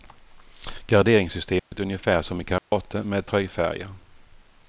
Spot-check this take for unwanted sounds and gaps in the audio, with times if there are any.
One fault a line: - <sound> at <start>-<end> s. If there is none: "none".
- dropout at 1.6-1.7 s
- dropout at 2.6-2.7 s